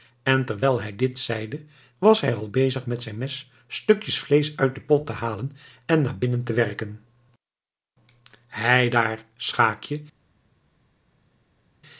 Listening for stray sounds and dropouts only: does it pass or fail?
pass